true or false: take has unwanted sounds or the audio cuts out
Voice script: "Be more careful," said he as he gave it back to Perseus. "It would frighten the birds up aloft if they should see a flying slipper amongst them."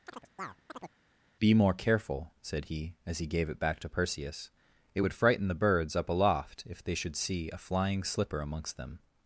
true